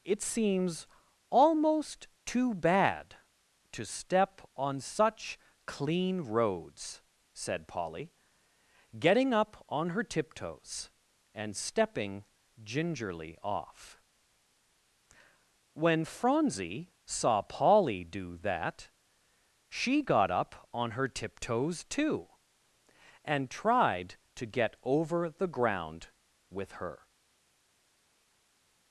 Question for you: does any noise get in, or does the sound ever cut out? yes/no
no